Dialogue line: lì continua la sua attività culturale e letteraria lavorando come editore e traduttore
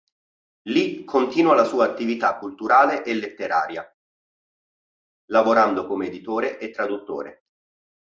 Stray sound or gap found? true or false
false